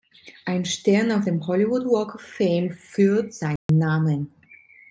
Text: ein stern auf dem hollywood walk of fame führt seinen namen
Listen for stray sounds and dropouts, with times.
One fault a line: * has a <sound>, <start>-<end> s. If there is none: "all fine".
* has a dropout, 3.6-3.7 s